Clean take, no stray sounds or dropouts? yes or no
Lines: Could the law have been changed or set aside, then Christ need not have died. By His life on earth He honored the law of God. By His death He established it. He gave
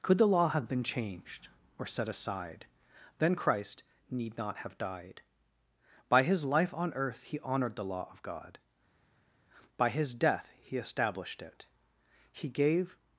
yes